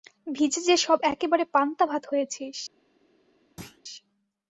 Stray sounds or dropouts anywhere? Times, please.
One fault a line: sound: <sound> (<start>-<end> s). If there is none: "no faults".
sound: thud (3.6-3.8 s)